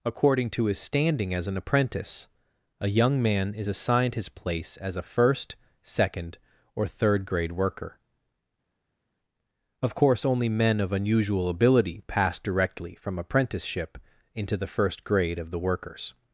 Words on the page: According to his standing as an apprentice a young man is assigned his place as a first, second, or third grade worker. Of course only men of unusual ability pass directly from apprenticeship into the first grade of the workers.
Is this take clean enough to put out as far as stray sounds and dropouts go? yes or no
yes